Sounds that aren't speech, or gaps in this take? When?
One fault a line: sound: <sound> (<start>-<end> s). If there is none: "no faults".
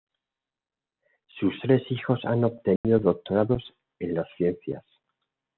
sound: dropout (2.8-2.8 s)